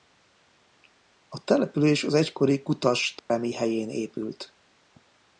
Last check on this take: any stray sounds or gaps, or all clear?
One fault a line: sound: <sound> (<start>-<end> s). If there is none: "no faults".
sound: dropout (3.2-3.3 s)